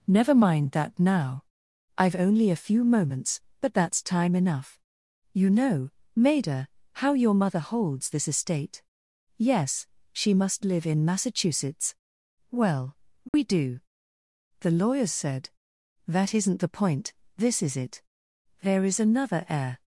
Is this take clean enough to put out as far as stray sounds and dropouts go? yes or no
no